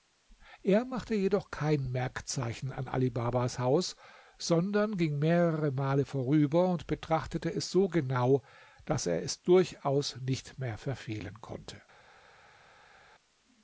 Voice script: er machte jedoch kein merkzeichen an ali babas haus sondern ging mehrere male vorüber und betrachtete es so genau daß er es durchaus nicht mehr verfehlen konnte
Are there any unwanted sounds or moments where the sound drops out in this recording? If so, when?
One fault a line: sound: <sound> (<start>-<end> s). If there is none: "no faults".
no faults